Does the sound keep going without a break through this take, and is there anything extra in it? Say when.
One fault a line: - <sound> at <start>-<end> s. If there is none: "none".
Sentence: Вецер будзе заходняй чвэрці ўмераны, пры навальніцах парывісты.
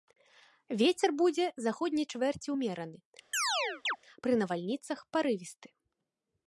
- chirp at 3.3-4.0 s